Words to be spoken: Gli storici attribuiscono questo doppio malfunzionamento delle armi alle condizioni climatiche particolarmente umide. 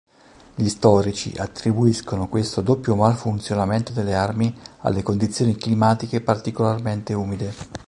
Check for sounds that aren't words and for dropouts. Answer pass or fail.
pass